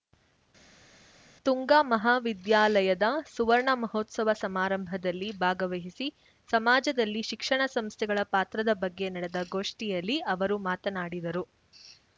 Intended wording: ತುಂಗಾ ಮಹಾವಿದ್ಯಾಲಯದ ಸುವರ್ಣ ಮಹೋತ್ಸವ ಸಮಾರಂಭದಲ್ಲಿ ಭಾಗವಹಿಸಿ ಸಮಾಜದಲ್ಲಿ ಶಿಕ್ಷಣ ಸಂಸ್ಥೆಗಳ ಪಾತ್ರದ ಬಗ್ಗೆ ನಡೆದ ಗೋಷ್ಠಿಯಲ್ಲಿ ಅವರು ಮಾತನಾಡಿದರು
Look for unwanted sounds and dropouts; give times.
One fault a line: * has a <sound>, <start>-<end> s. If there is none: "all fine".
all fine